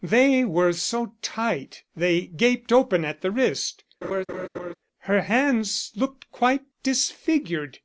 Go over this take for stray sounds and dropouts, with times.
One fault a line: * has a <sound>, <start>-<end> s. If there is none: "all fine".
* has a laugh, 4.0-4.7 s